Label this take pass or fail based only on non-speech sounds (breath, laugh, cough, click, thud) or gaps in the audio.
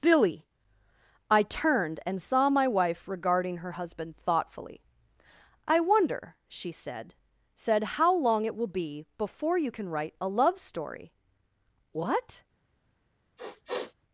fail